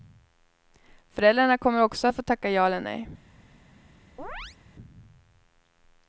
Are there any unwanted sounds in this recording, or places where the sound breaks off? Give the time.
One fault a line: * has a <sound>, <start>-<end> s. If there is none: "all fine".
* has a chirp, 4.2-4.6 s